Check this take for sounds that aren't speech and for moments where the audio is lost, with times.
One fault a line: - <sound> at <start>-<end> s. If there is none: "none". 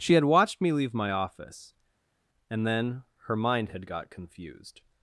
none